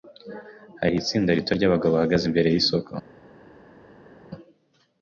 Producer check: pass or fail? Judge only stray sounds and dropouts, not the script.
pass